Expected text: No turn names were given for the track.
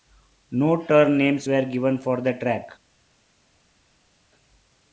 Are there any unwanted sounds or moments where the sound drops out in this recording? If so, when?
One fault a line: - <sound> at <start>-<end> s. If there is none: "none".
none